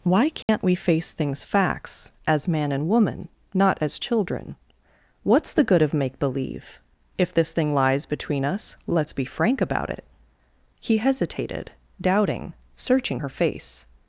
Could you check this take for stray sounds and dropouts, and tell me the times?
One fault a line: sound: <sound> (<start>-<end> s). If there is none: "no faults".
sound: dropout (0.4-0.5 s)